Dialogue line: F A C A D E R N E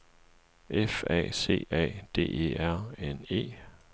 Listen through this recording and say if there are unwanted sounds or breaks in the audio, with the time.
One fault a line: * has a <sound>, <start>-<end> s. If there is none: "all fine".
all fine